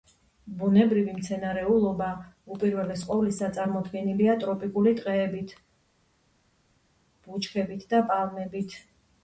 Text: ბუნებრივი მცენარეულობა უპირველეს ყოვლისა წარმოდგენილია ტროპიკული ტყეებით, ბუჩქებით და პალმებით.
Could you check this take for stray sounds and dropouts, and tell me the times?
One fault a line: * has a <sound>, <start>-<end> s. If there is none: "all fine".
all fine